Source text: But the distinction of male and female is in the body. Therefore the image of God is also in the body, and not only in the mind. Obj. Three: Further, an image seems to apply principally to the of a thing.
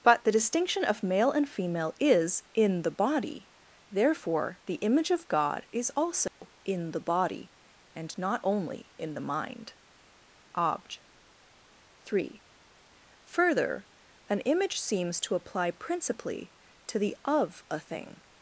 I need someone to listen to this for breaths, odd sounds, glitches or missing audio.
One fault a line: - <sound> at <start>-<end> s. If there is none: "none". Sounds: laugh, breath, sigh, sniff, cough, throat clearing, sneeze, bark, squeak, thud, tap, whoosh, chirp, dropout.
- dropout at 6.3-6.4 s